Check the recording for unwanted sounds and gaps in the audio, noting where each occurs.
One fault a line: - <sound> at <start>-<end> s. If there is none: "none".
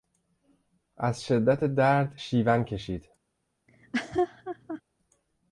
- laugh at 3.7-4.8 s